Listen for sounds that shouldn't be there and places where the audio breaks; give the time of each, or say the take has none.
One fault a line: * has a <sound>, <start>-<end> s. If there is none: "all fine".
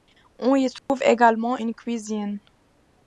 * has a dropout, 0.8-0.9 s